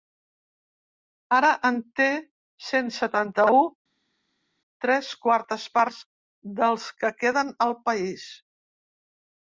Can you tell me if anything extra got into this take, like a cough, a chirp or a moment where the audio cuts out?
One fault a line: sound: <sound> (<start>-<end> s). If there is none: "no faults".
no faults